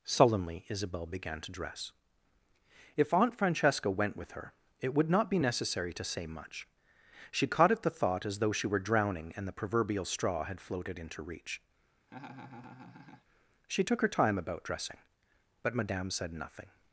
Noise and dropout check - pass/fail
fail